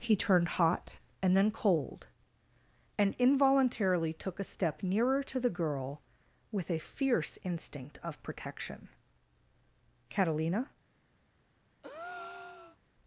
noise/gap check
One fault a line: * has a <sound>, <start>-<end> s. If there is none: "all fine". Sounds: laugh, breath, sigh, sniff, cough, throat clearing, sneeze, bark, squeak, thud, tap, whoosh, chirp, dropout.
* has a breath, 11.8-12.8 s